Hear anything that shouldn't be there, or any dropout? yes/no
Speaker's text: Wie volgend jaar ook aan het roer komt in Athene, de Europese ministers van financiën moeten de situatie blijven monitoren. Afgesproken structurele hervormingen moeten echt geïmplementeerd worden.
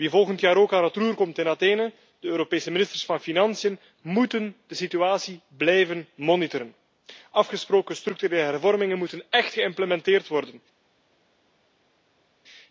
no